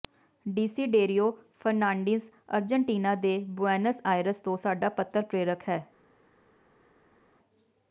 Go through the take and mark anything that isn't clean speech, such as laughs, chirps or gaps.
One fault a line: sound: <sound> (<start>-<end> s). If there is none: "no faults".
no faults